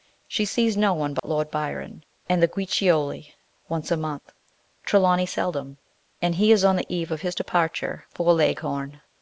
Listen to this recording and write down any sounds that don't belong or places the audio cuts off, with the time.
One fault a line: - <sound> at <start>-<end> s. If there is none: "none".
- dropout at 1.2-1.2 s